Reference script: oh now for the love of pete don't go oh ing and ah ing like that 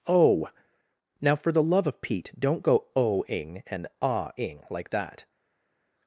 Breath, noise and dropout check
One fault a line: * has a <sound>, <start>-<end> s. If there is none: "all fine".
all fine